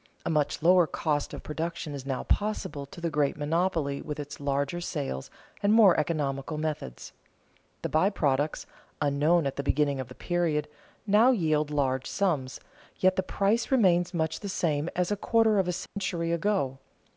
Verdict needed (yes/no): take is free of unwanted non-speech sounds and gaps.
no